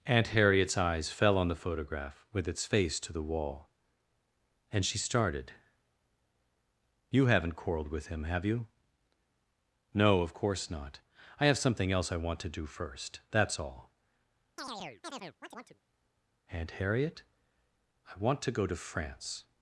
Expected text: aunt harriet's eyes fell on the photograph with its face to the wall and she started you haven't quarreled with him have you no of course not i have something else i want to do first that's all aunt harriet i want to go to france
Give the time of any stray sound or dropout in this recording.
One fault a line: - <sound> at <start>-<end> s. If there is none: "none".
- chirp at 14.6-15.8 s